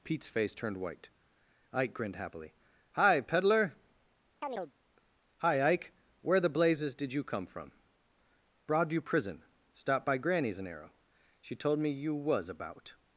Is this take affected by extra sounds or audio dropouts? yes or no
yes